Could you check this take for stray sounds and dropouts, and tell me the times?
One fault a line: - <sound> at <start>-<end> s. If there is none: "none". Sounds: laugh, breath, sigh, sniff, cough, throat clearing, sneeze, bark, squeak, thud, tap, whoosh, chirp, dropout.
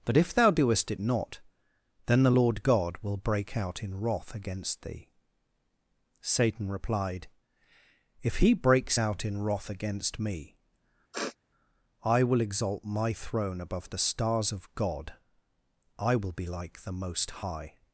- sniff at 11.1-11.4 s